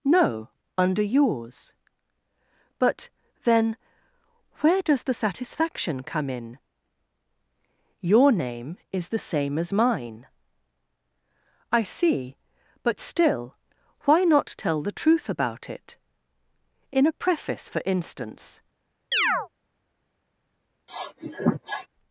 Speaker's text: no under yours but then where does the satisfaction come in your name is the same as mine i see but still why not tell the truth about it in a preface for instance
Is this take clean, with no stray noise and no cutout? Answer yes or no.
no